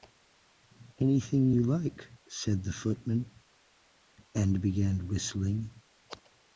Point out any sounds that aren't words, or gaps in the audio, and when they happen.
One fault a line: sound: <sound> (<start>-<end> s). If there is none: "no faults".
no faults